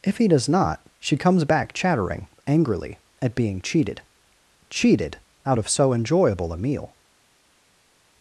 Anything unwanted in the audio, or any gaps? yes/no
no